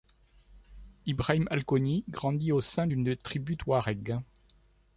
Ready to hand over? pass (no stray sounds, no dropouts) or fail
pass